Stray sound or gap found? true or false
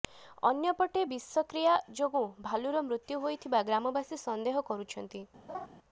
true